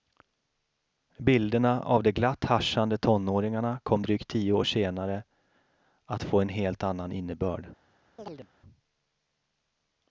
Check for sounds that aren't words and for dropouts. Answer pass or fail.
fail